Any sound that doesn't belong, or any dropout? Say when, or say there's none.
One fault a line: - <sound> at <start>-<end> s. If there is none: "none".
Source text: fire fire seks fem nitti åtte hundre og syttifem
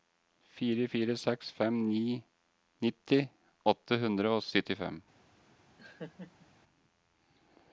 - laugh at 5.8-6.5 s